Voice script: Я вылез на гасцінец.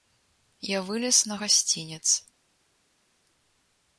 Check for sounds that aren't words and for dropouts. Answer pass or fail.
pass